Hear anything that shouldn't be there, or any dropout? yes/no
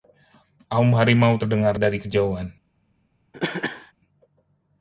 yes